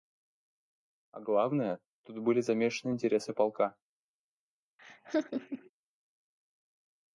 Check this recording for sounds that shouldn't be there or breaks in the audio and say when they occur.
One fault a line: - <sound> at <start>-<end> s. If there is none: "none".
- laugh at 4.8-5.7 s